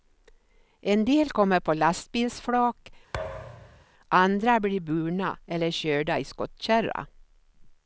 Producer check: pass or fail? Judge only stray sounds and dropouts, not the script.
fail